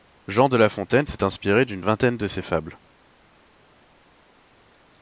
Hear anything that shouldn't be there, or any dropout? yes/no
no